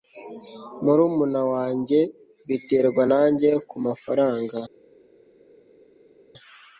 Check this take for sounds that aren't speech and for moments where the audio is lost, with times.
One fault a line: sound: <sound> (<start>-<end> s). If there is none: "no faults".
no faults